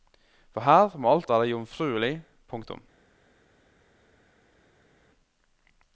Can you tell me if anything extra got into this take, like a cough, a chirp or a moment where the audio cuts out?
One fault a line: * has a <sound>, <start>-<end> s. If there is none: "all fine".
all fine